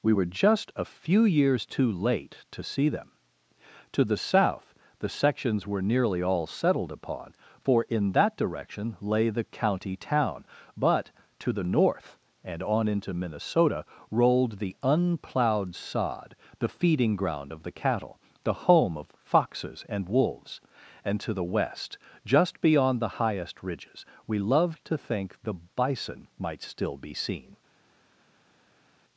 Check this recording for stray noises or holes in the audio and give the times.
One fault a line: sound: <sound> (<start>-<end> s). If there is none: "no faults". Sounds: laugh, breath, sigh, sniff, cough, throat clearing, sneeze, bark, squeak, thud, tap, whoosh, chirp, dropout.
no faults